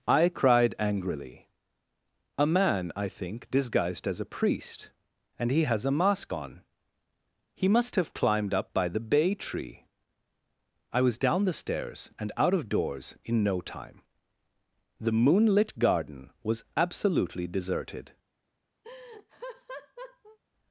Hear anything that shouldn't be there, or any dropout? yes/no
yes